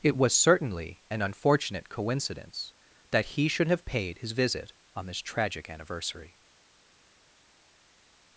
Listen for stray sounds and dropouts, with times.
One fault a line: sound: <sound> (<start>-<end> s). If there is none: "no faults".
no faults